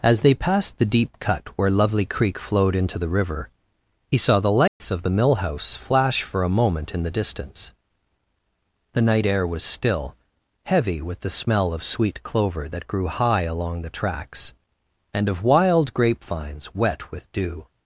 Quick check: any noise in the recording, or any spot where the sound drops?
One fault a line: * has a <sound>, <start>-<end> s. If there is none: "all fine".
* has a dropout, 4.7-4.8 s